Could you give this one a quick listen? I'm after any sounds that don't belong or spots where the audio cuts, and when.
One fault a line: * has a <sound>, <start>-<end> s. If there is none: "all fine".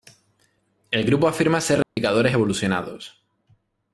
* has a dropout, 1.8-2.0 s